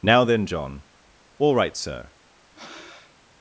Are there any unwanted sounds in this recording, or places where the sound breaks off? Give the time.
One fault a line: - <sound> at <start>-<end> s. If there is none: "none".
- breath at 2.5-3.1 s